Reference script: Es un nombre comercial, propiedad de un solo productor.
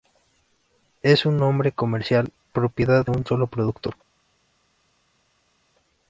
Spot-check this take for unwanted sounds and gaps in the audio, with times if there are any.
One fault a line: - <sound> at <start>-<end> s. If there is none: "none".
none